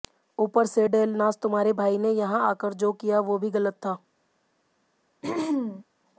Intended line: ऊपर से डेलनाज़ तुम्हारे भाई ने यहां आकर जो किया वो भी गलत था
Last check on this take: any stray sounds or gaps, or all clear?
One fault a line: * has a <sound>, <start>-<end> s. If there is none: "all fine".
* has a throat clearing, 5.2-5.8 s